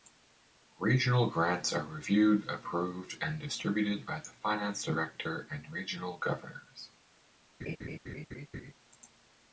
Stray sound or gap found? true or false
true